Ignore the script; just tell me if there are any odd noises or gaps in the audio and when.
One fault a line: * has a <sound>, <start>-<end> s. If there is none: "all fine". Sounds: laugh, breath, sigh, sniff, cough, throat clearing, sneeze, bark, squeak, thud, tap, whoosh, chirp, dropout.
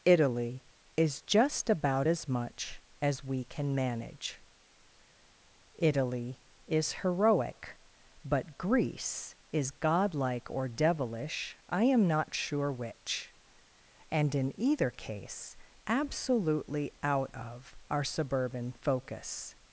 all fine